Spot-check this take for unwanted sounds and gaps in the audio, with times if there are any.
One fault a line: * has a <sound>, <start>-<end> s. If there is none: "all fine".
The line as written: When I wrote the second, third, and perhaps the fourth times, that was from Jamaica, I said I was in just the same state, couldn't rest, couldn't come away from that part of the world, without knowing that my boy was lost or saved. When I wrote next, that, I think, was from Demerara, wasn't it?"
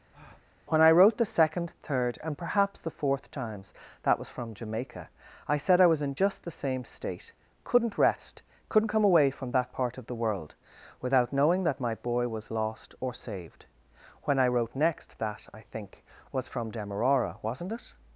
* has a breath, 0.1-0.5 s